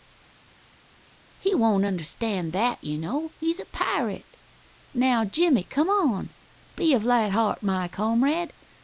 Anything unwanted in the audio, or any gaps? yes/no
no